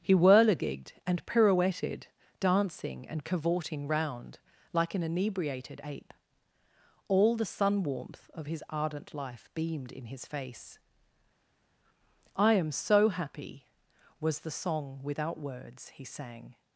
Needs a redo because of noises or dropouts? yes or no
no